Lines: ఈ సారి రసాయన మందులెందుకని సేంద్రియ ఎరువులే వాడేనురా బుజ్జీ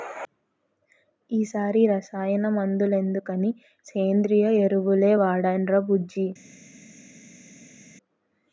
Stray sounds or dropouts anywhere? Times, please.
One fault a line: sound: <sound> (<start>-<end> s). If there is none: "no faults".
no faults